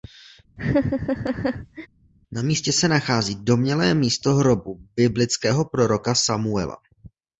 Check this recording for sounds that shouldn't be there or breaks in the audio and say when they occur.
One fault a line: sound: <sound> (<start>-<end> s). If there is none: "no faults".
sound: laugh (0.6-1.9 s)